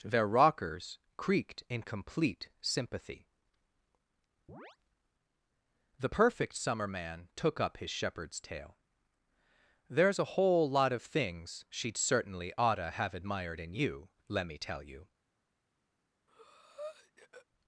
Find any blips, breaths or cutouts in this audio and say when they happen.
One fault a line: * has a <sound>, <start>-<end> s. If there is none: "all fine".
* has a chirp, 4.5-4.8 s
* has a breath, 16.3-17.5 s